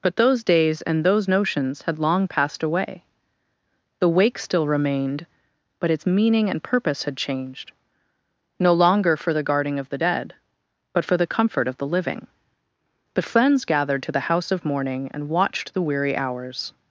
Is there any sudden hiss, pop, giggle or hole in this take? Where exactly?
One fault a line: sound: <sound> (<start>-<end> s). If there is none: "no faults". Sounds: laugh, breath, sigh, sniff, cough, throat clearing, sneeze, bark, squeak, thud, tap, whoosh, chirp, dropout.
no faults